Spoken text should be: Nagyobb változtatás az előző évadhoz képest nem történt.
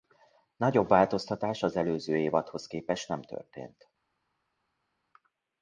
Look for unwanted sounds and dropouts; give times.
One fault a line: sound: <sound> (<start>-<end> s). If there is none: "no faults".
no faults